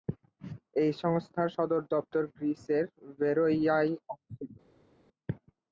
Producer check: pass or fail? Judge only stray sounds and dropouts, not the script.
pass